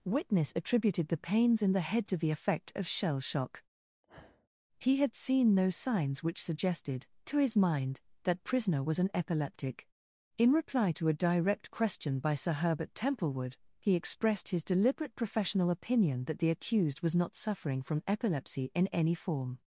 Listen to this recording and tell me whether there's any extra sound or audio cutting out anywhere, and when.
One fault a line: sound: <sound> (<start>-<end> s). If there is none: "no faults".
sound: sniff (4.0-4.5 s)